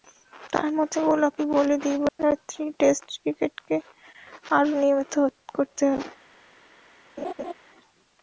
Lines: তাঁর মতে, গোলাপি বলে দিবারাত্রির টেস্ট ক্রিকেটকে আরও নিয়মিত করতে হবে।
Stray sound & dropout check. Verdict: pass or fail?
fail